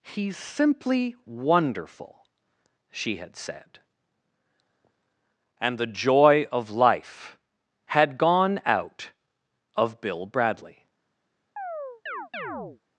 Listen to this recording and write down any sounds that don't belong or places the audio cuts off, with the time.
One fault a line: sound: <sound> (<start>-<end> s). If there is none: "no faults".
sound: chirp (11.6-12.8 s)